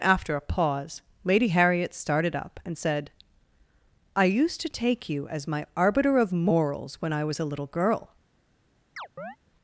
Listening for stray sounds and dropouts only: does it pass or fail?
fail